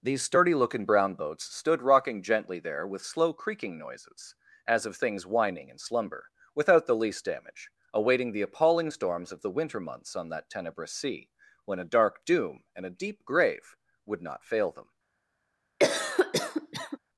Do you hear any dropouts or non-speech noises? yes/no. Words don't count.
yes